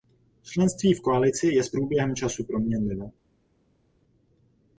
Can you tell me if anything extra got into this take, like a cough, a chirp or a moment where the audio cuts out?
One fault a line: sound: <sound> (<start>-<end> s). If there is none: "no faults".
no faults